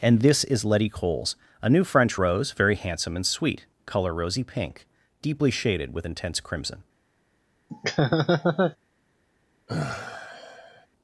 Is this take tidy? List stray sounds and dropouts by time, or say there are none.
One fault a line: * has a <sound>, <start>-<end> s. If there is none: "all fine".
* has a laugh, 7.7-8.8 s
* has a sigh, 9.7-10.9 s